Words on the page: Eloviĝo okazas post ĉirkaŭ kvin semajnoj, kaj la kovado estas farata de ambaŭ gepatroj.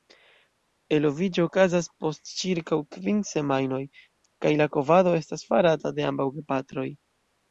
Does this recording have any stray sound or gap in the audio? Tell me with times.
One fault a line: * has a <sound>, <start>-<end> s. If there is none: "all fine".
all fine